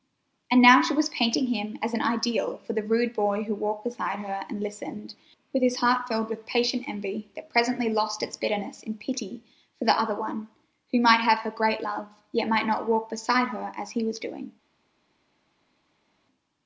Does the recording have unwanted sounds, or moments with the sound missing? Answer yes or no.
no